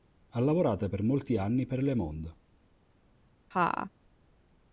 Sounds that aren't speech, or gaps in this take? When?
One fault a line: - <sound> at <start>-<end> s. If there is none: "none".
- laugh at 3.5-3.9 s